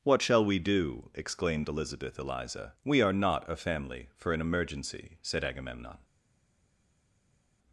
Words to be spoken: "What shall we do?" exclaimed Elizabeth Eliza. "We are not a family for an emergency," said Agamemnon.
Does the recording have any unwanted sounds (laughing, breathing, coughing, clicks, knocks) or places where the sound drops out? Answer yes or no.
no